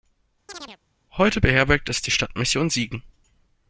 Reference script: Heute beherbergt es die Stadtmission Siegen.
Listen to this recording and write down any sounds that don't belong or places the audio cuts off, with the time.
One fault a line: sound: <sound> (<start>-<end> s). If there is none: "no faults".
sound: chirp (0.5-0.8 s)